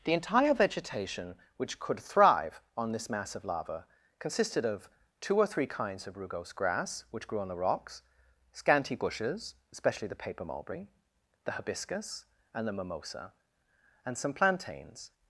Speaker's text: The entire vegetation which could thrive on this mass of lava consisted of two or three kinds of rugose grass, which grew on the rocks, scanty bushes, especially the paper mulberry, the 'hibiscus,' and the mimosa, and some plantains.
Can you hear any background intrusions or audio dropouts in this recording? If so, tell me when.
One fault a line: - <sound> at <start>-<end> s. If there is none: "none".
none